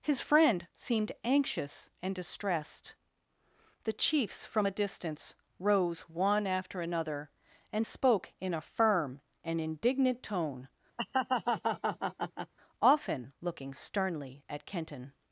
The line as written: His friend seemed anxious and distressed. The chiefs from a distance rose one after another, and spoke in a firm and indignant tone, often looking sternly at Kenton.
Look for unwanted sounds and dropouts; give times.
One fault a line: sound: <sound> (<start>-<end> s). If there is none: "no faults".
sound: laugh (11.0-12.5 s)